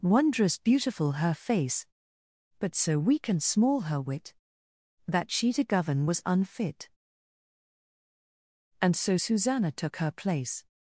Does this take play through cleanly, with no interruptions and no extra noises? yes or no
yes